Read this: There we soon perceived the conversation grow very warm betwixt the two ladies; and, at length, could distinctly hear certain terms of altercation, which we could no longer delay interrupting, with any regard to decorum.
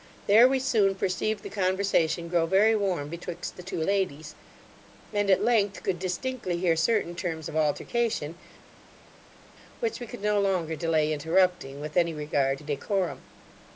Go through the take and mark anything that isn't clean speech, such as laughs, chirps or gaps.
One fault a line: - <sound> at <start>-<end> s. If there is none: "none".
none